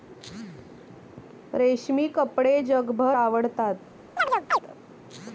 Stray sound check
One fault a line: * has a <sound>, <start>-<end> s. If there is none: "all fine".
* has a chirp, 4.2-4.6 s